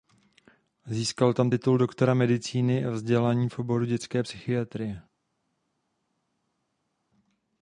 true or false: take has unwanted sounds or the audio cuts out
false